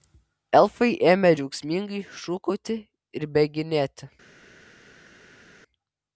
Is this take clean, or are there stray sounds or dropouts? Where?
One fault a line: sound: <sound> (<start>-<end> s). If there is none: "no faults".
no faults